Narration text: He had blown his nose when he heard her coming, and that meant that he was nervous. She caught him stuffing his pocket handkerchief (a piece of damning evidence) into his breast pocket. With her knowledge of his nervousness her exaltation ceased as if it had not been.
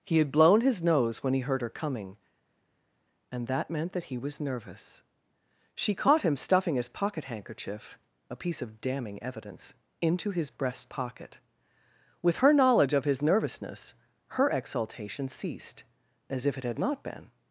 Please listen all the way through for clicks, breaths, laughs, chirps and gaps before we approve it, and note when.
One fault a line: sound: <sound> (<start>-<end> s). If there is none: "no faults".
no faults